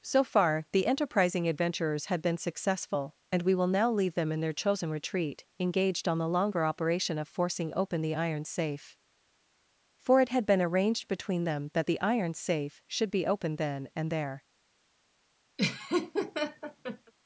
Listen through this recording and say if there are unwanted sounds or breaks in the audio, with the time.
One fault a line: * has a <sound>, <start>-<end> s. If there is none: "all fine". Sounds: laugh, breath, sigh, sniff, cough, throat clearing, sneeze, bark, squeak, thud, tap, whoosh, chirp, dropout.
* has a laugh, 15.6-17.1 s